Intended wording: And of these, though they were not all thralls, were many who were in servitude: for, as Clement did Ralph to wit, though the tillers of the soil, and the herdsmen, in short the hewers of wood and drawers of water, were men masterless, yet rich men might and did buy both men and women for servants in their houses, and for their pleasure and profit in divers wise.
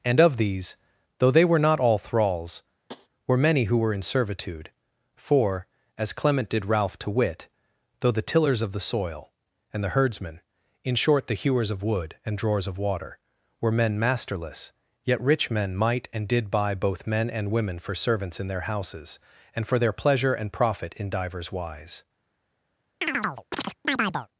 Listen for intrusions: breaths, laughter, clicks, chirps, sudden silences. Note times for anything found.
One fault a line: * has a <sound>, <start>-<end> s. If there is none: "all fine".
* has a tap, 2.9-3.1 s
* has a chirp, 23.0-24.3 s